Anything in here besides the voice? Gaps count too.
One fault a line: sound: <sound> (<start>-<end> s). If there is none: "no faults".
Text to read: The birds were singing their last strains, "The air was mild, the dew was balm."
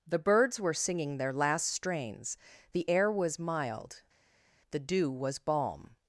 no faults